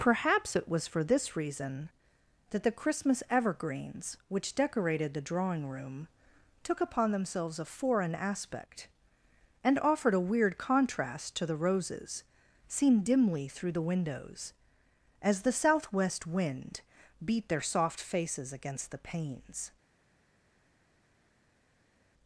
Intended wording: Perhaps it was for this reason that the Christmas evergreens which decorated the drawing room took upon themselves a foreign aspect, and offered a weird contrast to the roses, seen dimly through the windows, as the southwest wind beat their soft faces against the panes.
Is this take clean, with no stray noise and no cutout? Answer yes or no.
yes